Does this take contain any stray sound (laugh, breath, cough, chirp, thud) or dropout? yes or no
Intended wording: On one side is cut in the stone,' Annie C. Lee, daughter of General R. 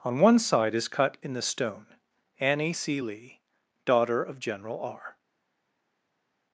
no